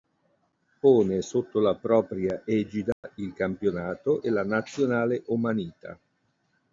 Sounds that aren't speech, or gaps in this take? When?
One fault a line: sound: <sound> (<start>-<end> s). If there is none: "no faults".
sound: dropout (2.9-3.0 s)